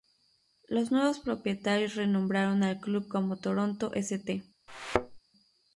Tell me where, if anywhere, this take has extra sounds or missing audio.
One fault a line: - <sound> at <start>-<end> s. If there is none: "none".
- thud at 4.7-5.2 s